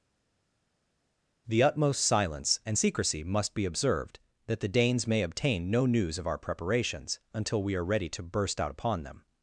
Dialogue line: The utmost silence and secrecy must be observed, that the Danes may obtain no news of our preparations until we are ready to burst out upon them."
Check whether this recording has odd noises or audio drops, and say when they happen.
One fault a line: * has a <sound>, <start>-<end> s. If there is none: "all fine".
all fine